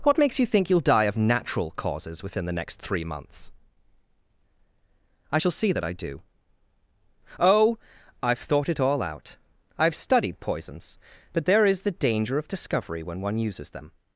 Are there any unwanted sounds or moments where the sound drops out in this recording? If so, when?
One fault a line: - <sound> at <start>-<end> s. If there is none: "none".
none